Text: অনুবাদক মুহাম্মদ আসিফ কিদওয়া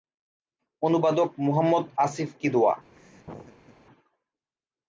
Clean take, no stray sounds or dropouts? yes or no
no